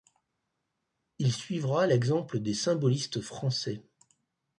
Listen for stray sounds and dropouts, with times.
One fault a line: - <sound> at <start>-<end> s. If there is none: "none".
none